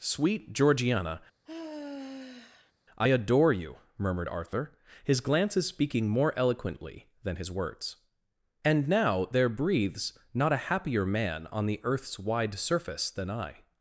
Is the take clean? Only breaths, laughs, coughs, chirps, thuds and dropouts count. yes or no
no